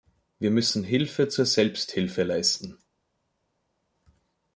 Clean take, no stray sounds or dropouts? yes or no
yes